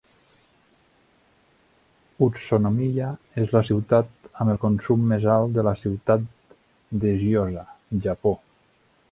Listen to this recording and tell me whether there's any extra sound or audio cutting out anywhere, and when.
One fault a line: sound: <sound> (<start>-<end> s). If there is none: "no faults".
no faults